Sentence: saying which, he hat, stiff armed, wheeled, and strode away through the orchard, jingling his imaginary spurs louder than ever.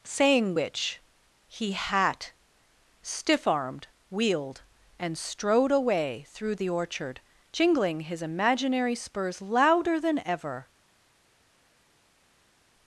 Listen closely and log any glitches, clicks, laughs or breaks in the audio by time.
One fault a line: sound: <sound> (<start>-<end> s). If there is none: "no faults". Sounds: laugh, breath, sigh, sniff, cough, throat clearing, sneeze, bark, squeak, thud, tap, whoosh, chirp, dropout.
no faults